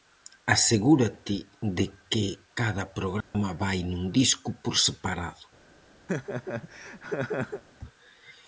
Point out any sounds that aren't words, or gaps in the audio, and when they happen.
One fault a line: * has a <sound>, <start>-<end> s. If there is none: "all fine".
* has a dropout, 3.2-3.3 s
* has a laugh, 6.1-7.6 s